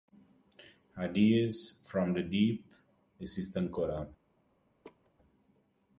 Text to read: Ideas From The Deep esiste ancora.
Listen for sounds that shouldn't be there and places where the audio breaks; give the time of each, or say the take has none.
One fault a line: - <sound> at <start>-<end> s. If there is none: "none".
- laugh at 4.8-5.1 s